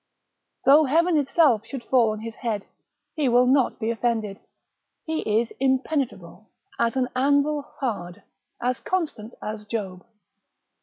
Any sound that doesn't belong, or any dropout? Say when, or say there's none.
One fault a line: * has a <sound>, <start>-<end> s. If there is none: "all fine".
all fine